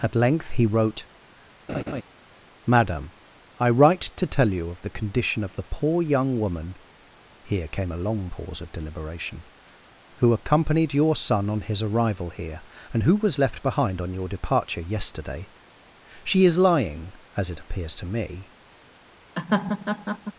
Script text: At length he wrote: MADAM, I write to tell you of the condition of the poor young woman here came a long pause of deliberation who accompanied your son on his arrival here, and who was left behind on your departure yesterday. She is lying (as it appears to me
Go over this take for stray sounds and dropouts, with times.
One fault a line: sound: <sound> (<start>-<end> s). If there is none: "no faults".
sound: laugh (1.7-2.0 s)
sound: laugh (19.4-20.3 s)